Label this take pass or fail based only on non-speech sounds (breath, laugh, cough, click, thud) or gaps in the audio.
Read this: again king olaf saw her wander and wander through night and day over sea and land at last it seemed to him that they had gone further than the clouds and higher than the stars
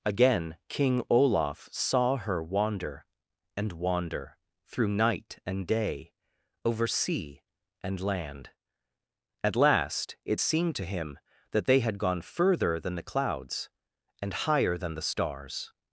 pass